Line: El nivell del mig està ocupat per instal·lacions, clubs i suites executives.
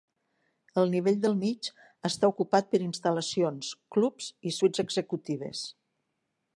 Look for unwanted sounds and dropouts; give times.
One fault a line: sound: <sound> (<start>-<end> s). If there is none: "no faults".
no faults